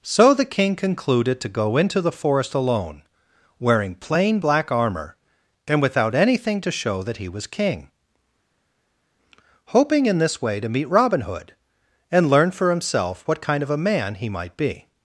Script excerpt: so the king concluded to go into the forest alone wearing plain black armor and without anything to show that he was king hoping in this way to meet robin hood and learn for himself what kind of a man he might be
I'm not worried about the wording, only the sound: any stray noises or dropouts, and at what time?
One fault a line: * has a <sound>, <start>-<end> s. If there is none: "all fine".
all fine